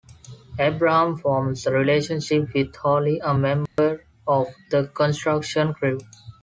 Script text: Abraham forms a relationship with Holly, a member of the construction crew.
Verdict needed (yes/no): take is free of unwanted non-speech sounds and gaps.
no